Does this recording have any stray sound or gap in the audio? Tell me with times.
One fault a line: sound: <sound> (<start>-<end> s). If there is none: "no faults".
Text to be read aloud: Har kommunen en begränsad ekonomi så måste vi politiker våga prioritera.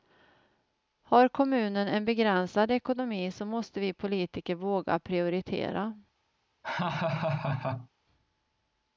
sound: laugh (6.6-7.9 s)